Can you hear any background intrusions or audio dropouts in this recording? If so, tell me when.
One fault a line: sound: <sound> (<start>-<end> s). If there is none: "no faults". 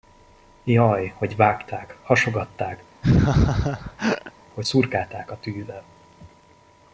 sound: laugh (3.0-4.3 s)